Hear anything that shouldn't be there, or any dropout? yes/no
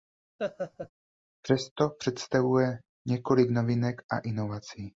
yes